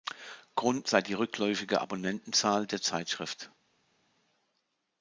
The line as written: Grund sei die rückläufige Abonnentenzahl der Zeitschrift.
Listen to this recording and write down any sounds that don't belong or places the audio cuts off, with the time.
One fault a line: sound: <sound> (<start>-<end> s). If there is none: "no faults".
no faults